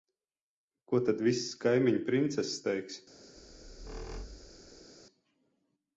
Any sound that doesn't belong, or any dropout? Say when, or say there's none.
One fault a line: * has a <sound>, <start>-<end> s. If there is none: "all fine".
* has a squeak, 3.4-4.9 s